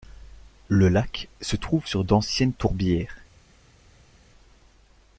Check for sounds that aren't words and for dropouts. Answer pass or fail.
pass